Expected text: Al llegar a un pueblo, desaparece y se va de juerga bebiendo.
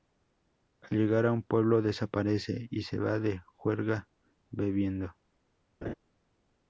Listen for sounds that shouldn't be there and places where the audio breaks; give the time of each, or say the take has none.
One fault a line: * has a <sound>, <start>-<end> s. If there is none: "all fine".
* has a laugh, 5.8-5.9 s